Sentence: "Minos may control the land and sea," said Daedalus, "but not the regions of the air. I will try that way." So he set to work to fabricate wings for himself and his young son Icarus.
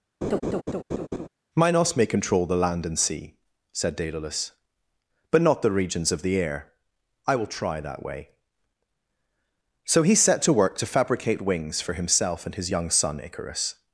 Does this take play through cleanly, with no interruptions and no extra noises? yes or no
no